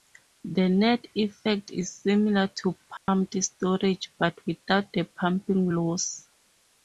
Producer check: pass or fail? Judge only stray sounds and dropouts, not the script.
fail